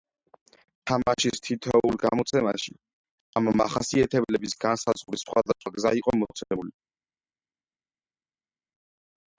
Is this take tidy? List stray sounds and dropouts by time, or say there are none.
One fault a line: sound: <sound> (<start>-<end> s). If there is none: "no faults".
no faults